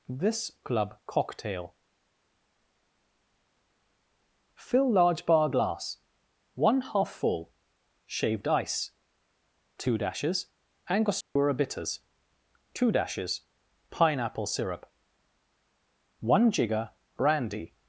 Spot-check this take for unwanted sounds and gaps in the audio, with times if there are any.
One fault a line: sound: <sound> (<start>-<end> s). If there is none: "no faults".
sound: dropout (11.2-11.4 s)